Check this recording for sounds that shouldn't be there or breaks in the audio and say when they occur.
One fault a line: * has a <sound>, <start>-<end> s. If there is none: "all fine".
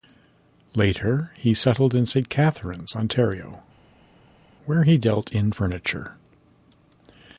all fine